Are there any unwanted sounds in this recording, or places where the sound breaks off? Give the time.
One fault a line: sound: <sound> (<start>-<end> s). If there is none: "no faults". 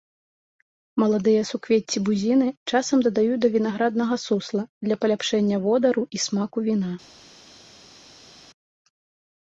no faults